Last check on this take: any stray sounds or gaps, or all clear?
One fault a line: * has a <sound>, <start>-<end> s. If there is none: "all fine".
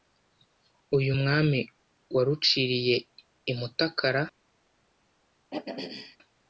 * has a throat clearing, 5.5-6.2 s